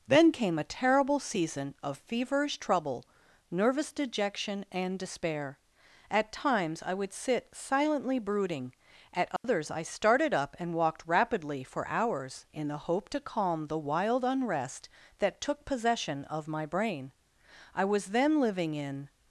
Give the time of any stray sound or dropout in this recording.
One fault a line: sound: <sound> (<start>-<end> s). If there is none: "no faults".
sound: dropout (9.4-9.4 s)